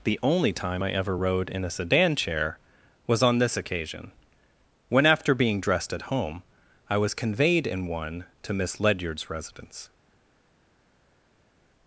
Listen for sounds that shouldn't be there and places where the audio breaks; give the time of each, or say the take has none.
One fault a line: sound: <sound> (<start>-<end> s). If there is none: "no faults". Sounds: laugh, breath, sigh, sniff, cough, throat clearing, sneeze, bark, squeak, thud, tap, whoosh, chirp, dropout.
no faults